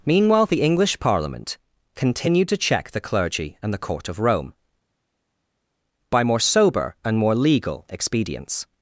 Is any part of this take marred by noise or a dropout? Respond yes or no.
no